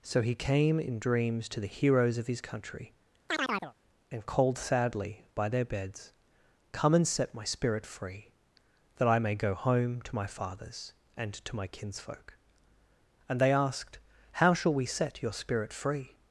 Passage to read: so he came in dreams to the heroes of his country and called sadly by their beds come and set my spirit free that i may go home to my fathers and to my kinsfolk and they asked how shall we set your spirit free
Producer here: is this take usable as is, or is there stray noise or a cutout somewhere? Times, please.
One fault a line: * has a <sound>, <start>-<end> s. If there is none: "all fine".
* has a chirp, 3.3-3.7 s